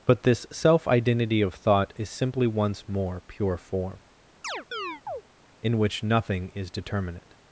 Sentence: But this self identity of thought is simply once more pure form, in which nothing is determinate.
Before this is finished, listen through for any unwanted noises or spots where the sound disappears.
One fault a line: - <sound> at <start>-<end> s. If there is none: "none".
- chirp at 4.4-5.2 s